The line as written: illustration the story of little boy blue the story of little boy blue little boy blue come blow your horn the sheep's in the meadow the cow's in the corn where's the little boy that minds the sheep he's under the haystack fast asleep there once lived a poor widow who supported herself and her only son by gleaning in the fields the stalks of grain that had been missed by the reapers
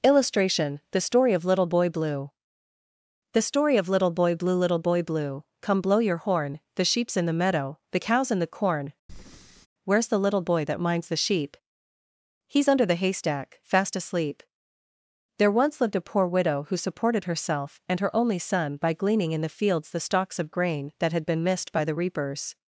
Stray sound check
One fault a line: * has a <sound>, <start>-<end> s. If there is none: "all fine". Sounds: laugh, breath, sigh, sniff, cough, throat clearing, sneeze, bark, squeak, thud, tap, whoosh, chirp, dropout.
* has a breath, 9.1-9.7 s